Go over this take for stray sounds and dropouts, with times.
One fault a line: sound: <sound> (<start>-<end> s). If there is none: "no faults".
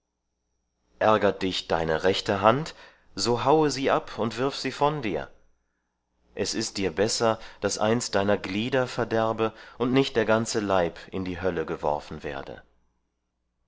no faults